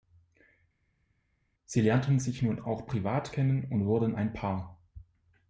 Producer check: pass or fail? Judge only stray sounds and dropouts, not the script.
pass